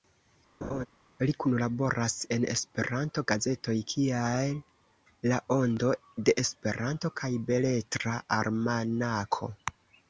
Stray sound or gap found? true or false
true